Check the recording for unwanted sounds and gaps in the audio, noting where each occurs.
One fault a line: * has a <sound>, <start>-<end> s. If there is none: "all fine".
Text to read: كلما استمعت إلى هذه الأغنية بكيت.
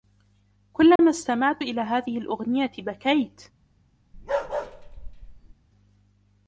* has a dropout, 1.0-1.0 s
* has a bark, 4.1-5.5 s